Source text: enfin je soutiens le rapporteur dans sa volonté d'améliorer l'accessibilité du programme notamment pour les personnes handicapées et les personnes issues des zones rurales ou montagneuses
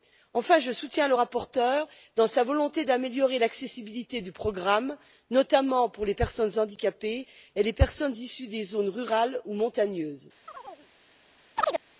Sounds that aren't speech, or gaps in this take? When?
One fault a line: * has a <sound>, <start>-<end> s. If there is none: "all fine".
* has a chirp, 10.5-10.9 s
* has a chirp, 11.6-11.8 s